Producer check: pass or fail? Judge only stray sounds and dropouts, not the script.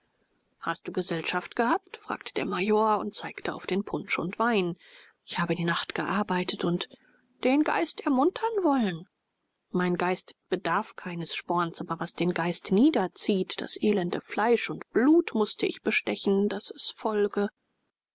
pass